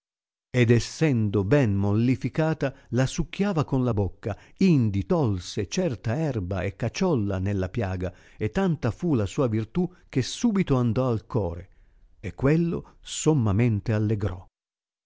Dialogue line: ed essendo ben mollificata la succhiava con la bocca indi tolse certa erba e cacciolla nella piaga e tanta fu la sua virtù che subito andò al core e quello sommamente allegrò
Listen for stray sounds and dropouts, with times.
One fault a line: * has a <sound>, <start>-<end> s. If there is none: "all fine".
all fine